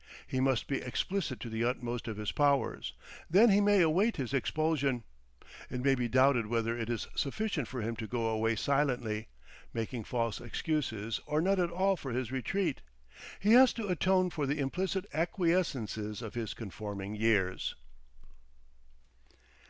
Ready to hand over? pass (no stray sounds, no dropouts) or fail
pass